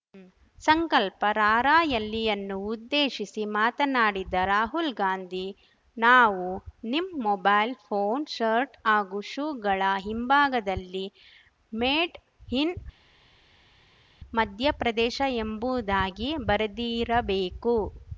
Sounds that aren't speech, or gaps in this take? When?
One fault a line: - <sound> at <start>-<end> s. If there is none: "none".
none